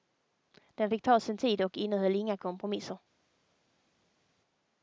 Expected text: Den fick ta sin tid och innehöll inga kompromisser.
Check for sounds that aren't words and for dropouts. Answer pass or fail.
pass